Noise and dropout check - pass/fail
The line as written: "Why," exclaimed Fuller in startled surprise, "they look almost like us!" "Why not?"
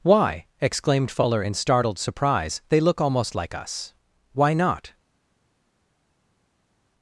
pass